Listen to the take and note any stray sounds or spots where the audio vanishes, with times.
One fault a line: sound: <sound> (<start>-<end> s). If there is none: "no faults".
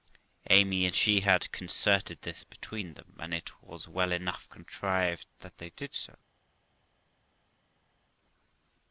no faults